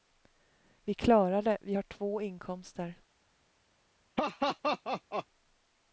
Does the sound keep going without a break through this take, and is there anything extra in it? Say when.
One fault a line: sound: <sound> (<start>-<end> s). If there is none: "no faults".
sound: laugh (4.2-5.3 s)